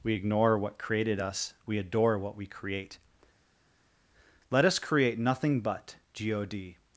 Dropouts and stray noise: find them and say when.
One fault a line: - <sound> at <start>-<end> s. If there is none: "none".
none